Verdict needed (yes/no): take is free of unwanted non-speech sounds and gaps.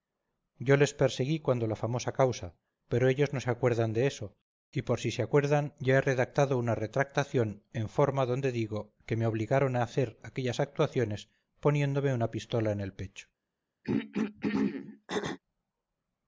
no